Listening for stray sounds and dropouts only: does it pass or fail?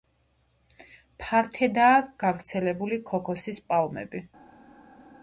pass